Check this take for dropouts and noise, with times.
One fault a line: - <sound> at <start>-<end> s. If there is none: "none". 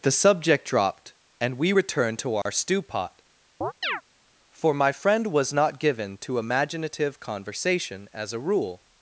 - dropout at 2.4-2.5 s
- chirp at 3.6-4.0 s